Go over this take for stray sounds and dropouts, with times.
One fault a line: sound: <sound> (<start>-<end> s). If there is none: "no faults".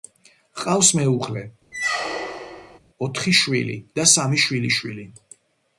sound: squeak (1.7-2.8 s)